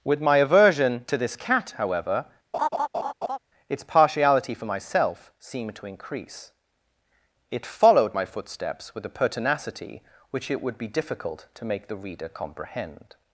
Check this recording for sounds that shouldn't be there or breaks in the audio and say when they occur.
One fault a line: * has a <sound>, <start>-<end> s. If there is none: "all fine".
* has a laugh, 2.5-3.4 s